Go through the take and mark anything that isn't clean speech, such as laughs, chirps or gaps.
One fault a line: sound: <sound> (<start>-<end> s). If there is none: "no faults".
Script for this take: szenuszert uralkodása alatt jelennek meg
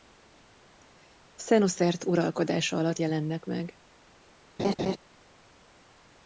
sound: laugh (4.6-5.0 s)